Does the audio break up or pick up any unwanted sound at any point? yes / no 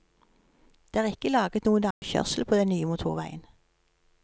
yes